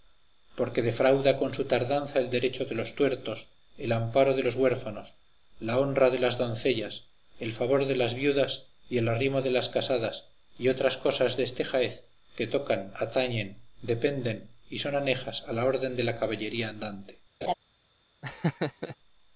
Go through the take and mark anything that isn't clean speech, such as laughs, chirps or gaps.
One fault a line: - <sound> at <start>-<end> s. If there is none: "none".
- laugh at 17.4-17.5 s
- laugh at 18.2-19.0 s